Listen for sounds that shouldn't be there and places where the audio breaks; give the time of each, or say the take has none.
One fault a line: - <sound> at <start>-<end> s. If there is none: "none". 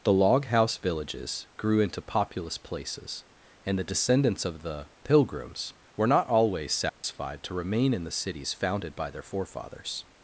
- dropout at 6.9-7.0 s